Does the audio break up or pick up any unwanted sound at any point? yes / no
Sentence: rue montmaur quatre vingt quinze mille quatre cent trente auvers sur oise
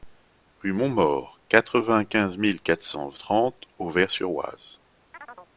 yes